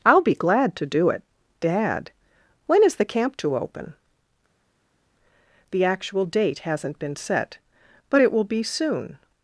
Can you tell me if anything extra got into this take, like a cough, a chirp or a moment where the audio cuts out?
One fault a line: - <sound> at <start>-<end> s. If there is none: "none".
none